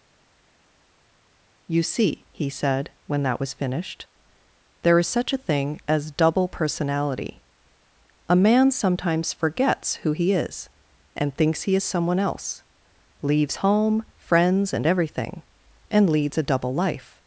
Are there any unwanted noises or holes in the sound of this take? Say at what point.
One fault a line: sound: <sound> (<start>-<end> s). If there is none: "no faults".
no faults